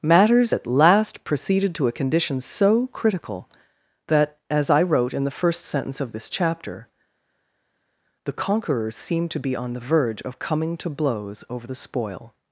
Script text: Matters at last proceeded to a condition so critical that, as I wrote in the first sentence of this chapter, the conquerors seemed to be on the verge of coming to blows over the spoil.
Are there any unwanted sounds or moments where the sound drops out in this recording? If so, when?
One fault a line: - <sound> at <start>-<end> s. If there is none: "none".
none